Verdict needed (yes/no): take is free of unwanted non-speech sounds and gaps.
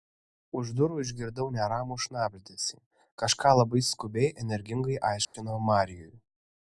no